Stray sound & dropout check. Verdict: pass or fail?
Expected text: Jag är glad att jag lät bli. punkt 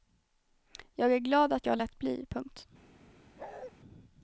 fail